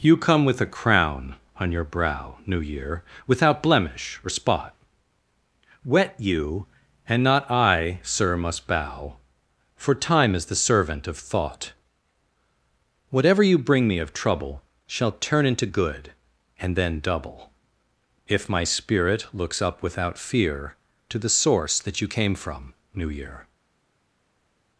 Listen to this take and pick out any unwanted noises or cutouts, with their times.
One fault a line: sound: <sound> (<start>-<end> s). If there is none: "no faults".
no faults